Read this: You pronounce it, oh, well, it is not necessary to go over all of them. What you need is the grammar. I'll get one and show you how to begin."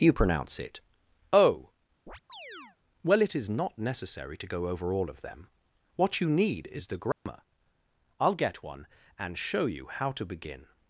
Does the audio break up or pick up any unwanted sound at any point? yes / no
yes